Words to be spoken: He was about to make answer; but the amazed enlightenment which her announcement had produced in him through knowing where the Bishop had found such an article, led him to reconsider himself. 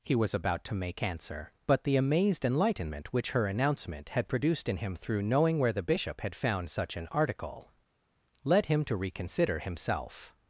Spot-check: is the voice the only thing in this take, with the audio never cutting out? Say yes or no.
yes